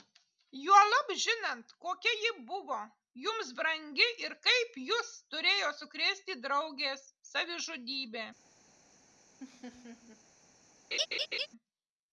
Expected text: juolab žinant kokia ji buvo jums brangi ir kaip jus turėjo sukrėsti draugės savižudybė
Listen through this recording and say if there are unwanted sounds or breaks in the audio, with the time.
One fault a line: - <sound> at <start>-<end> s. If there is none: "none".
- laugh at 9.4-10.2 s
- laugh at 10.9-11.5 s